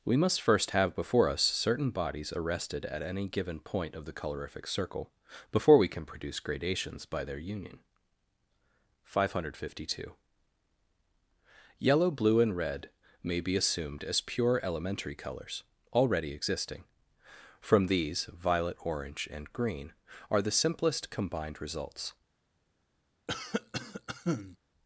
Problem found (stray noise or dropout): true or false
true